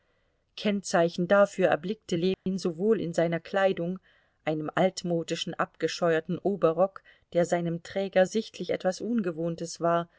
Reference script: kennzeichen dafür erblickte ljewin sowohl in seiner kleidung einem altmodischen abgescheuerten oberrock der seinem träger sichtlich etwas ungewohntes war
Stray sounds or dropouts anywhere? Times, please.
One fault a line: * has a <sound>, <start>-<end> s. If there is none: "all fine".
* has a dropout, 2.3-2.5 s